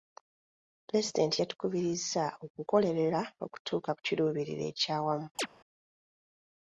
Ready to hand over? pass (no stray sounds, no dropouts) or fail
fail